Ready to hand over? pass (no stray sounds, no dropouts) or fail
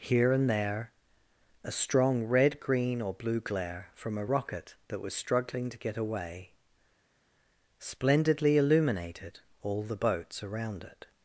pass